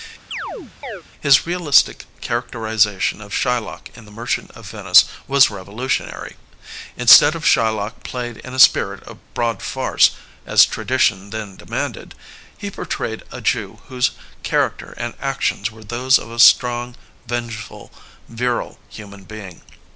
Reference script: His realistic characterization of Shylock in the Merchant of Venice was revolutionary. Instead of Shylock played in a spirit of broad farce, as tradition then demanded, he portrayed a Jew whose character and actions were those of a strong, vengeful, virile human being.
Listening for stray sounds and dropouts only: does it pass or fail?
fail